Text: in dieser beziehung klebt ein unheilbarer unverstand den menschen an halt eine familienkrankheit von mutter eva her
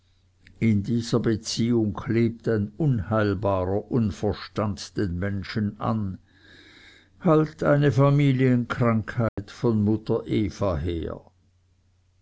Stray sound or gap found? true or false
true